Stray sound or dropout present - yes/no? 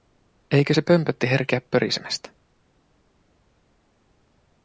no